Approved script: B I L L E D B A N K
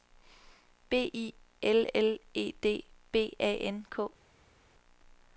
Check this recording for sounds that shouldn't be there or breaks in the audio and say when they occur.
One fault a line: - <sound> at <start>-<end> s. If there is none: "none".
none